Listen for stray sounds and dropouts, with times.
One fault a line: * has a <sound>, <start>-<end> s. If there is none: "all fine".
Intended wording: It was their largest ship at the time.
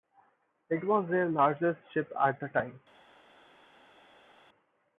all fine